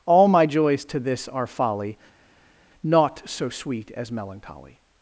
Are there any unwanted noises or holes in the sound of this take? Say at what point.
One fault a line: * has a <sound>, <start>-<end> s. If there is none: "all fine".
all fine